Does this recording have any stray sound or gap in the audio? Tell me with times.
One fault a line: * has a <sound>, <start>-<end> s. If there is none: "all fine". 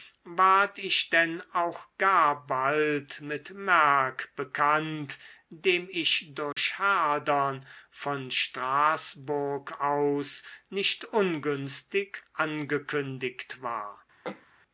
* has a dropout, 6.5-6.6 s
* has a throat clearing, 14.2-14.5 s